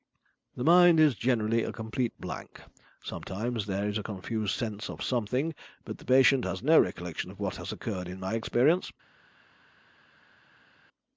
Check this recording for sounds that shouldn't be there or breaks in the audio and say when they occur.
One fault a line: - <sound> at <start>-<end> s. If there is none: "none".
none